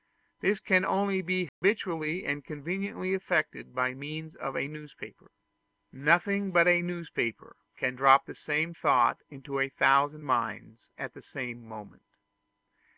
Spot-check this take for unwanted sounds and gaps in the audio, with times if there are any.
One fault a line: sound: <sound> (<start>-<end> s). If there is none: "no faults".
sound: dropout (1.5-1.6 s)